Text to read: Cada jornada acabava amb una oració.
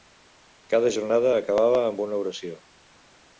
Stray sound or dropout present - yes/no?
no